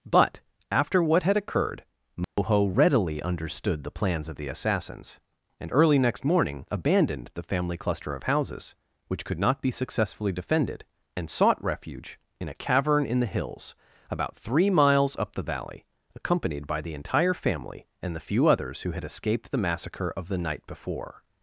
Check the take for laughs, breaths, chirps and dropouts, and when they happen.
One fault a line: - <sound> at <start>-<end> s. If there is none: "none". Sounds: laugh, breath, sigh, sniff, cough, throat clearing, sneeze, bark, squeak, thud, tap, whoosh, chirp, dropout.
- dropout at 2.2-2.4 s